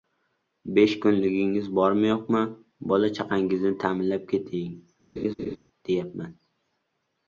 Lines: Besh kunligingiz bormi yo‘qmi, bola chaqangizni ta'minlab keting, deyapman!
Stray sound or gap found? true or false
true